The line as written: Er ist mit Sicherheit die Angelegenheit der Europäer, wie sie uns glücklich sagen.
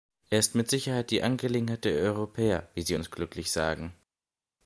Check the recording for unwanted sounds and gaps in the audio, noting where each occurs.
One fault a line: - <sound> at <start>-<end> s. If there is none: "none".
none